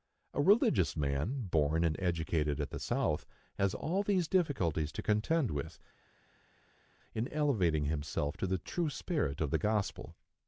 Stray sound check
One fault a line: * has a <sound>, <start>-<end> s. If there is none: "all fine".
all fine